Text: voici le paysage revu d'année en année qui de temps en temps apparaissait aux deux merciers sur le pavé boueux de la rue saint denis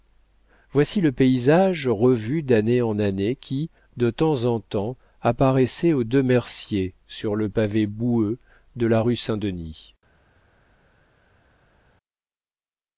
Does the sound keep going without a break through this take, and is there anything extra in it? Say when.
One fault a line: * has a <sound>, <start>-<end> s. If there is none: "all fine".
all fine